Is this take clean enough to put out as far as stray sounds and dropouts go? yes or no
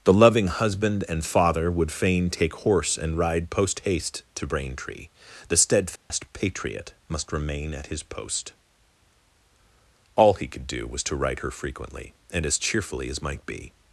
no